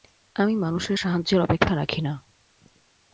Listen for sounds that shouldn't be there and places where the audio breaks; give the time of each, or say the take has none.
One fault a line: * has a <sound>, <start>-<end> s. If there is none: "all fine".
all fine